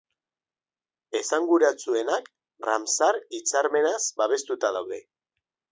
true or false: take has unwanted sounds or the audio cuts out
false